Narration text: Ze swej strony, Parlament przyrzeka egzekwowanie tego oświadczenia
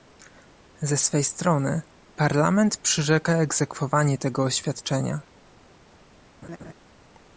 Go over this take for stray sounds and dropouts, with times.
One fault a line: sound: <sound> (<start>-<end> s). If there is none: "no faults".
sound: laugh (6.4-6.7 s)